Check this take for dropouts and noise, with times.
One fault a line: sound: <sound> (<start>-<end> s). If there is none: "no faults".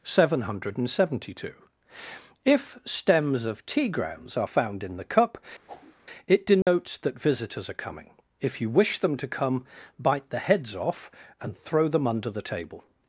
sound: whoosh (5.7-5.9 s)
sound: dropout (6.6-6.7 s)